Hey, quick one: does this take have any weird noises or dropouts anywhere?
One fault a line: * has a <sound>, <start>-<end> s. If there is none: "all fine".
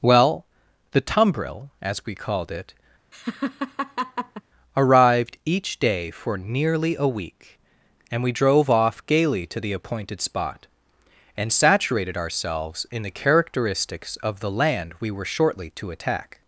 * has a laugh, 3.1-4.4 s